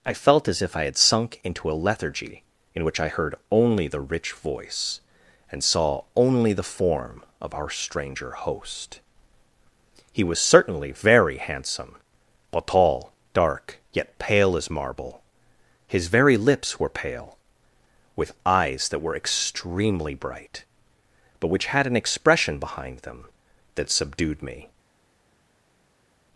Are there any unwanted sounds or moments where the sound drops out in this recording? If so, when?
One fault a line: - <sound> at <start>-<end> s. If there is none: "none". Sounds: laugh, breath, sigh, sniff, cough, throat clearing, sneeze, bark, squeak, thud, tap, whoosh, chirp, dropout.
none